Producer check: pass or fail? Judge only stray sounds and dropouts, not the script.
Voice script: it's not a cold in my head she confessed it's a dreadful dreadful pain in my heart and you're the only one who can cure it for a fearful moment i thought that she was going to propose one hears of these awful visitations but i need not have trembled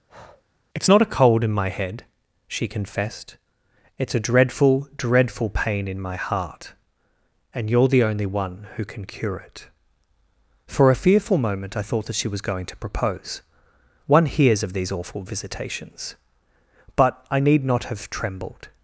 fail